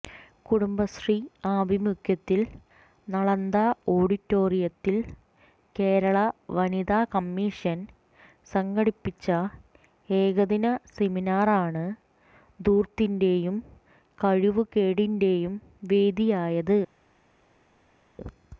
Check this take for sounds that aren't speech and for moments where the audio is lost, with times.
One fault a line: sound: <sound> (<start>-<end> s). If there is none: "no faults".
no faults